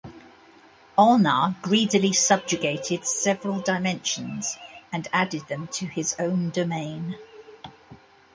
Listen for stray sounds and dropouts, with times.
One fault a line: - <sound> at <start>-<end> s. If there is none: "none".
none